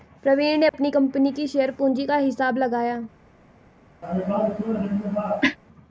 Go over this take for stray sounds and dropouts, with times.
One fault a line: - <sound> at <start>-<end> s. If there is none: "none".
- dropout at 0.7-0.7 s
- cough at 4.0-5.6 s